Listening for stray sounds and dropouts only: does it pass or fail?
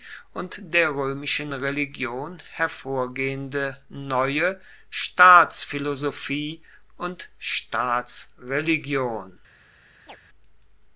fail